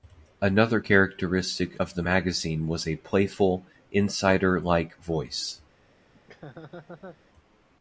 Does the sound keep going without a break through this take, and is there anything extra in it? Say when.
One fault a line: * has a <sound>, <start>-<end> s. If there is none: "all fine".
* has a laugh, 6.1-7.2 s